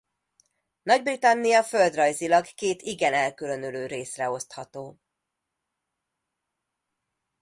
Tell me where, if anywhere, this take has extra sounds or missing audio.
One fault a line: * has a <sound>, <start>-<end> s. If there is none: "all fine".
all fine